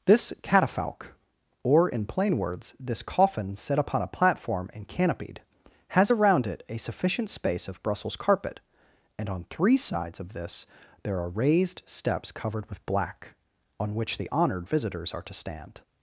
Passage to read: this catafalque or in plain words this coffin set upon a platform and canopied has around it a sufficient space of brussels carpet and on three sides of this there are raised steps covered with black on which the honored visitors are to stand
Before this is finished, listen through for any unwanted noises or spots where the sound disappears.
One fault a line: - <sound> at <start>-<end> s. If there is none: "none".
none